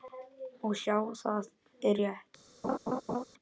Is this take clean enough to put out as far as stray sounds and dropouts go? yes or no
no